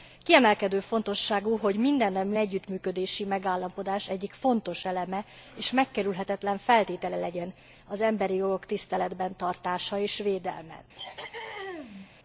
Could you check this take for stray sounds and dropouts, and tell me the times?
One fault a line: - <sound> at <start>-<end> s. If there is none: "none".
- throat clearing at 11.0-12.1 s